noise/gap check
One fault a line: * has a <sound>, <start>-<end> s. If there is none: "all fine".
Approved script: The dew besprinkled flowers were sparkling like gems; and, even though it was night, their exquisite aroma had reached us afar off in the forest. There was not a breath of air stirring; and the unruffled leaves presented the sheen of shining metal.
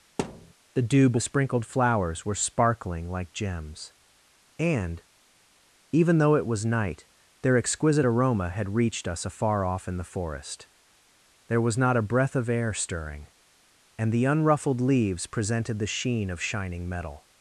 * has a thud, 0.2-0.5 s